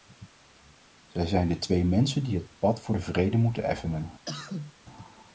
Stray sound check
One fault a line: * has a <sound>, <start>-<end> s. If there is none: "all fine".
* has a cough, 4.3-4.7 s